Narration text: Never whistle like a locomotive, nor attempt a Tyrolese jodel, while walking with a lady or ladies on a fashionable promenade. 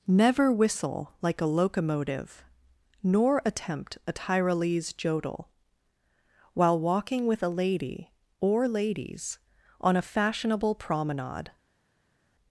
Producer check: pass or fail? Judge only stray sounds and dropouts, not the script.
pass